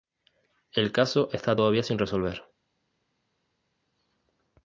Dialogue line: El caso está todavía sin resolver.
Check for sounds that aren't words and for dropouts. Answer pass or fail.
pass